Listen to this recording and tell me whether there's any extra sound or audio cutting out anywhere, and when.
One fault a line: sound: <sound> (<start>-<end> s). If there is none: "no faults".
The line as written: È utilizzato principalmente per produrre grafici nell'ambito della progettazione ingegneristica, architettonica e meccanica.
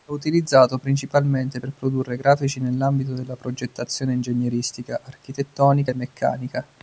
no faults